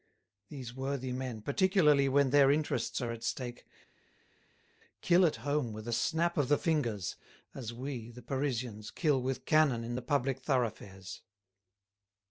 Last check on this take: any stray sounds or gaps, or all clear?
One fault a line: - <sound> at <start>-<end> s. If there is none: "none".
none